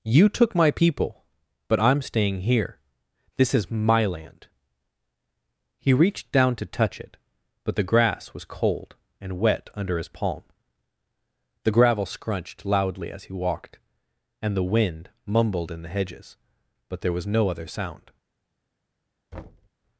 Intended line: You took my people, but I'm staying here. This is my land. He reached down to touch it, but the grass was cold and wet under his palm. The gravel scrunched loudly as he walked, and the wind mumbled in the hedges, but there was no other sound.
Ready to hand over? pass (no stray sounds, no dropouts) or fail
fail